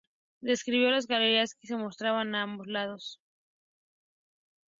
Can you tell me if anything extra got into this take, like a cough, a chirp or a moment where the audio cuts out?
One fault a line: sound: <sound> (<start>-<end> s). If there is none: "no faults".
no faults